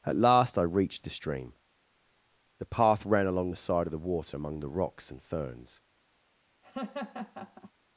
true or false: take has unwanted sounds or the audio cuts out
true